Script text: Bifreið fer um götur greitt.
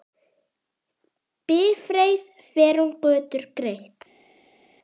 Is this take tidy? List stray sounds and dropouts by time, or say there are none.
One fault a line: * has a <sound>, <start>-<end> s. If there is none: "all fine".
all fine